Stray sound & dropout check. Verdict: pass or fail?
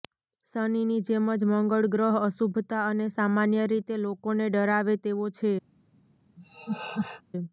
fail